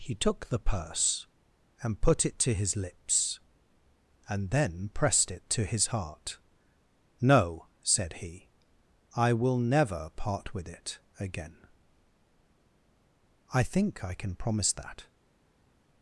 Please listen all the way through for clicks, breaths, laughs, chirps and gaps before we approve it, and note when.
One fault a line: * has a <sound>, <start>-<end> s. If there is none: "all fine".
all fine